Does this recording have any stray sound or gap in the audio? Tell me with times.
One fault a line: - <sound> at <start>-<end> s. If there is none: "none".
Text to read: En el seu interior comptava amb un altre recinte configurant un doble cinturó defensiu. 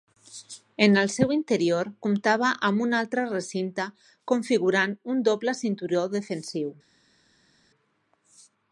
none